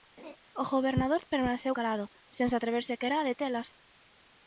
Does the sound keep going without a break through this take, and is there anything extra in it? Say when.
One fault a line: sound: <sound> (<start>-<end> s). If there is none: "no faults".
sound: laugh (0.2-0.4 s)